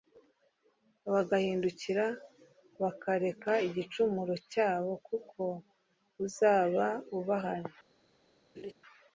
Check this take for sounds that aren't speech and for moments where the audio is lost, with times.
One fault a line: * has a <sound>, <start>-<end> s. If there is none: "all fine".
* has a laugh, 8.6-8.7 s